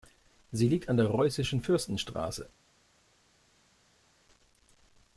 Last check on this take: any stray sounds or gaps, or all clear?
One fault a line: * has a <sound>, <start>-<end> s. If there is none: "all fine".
all fine